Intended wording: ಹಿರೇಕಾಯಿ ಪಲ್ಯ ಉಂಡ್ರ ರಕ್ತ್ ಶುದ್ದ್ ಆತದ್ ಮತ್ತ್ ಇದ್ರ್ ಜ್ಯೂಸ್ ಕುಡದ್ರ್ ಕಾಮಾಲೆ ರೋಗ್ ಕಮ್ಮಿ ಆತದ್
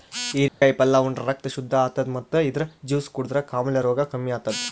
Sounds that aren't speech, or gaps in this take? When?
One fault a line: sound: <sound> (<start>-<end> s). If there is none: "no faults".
sound: dropout (0.5-0.6 s)